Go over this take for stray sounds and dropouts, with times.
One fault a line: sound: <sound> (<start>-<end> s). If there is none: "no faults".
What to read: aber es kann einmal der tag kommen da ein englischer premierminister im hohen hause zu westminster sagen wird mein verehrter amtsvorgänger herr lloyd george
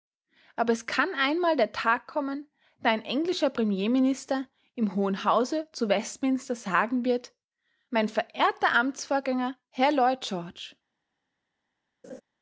sound: laugh (12.0-12.2 s)